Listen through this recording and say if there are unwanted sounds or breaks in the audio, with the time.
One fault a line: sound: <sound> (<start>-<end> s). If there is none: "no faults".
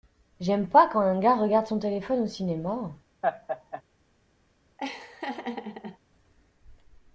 sound: laugh (3.2-3.8 s)
sound: laugh (4.8-6.0 s)